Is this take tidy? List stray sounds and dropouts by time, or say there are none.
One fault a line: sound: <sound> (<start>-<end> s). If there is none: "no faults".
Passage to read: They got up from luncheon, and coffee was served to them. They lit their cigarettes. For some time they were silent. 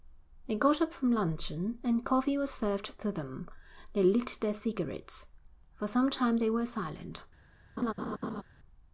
sound: laugh (7.8-8.4 s)